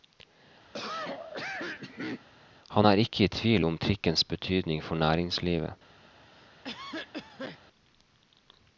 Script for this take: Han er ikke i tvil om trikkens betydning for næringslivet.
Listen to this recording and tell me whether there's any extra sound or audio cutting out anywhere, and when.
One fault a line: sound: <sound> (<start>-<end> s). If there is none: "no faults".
sound: cough (0.7-2.3 s)
sound: cough (6.3-7.6 s)